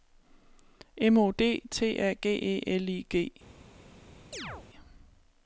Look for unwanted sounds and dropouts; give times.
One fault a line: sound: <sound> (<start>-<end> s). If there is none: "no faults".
sound: chirp (4.3-4.7 s)